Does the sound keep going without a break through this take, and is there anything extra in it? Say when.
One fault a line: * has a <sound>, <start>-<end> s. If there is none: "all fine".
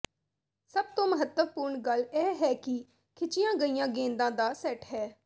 all fine